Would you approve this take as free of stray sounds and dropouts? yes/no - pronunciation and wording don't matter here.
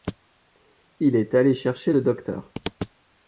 yes